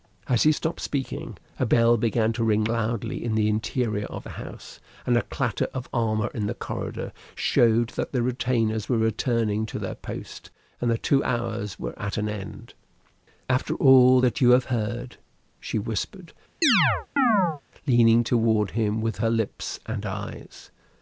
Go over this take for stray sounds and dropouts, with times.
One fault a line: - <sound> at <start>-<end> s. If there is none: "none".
- chirp at 16.6-17.6 s